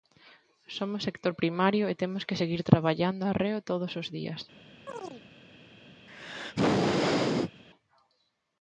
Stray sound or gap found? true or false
true